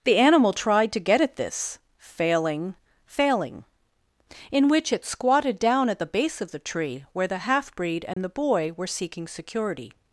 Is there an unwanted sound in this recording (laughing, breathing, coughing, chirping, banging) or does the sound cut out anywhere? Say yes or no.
yes